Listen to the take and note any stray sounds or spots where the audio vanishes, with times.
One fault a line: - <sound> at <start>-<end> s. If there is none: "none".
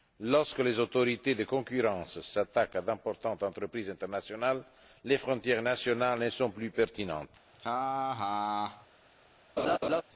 - laugh at 7.5-8.9 s
- laugh at 9.6-10.0 s